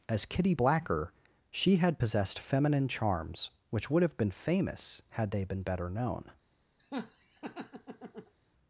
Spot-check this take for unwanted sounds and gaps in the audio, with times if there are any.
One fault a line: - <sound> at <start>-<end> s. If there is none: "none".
- laugh at 6.8-8.3 s